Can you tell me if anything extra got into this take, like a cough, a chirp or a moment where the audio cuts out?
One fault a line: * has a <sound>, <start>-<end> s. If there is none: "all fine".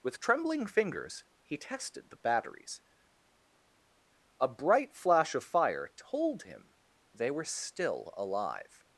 all fine